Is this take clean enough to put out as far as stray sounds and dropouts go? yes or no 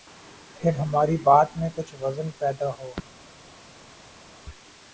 yes